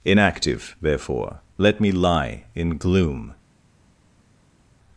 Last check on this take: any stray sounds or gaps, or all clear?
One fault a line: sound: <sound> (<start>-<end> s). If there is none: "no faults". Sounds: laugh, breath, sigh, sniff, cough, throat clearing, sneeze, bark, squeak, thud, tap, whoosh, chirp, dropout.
no faults